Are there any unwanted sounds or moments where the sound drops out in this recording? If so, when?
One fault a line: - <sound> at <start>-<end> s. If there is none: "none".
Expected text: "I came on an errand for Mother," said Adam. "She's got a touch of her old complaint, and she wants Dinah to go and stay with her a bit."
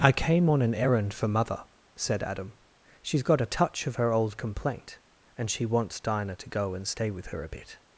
none